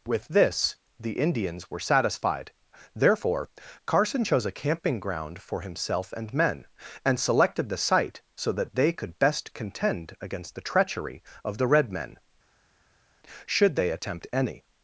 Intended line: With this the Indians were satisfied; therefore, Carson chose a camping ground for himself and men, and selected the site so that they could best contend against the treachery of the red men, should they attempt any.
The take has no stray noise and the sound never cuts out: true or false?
true